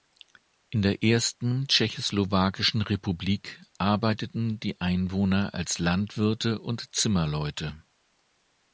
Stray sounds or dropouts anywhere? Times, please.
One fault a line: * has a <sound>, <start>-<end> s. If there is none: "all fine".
all fine